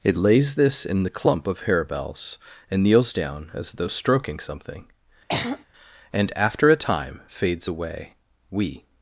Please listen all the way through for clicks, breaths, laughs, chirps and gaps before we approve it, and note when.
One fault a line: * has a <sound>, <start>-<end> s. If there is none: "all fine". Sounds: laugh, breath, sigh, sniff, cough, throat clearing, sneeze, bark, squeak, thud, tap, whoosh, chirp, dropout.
* has a throat clearing, 5.3-5.6 s